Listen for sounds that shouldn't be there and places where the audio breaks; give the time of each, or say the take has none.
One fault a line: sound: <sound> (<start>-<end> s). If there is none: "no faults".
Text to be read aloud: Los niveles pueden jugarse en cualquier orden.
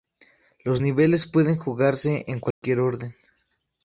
sound: dropout (2.5-2.6 s)